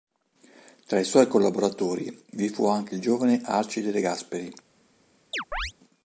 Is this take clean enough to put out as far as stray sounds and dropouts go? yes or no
no